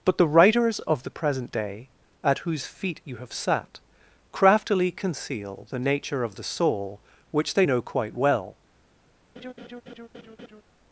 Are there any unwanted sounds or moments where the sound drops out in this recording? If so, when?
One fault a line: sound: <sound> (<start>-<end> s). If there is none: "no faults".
sound: laugh (9.4-10.6 s)